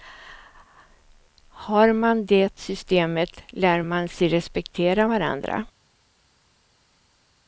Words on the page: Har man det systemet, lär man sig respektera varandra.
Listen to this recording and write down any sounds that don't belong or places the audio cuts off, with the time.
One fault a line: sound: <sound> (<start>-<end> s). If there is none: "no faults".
no faults